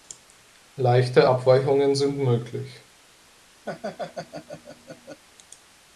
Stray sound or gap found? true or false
true